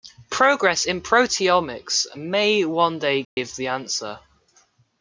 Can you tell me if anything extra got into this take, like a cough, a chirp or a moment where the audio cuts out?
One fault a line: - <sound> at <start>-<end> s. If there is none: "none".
- dropout at 3.2-3.4 s